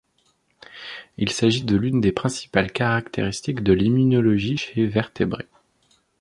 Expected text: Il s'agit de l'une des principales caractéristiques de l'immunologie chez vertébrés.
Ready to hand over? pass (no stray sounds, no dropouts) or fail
pass